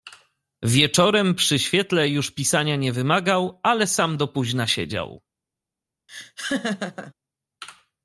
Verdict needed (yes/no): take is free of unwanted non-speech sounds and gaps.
no